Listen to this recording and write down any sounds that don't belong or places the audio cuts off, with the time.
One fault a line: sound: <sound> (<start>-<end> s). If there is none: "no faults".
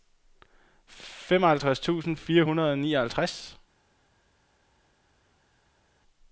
no faults